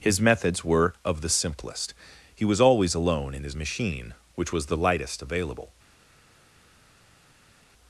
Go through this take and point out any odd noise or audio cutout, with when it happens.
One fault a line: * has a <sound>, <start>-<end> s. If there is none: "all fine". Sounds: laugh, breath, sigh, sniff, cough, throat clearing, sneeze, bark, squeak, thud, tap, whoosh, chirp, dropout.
all fine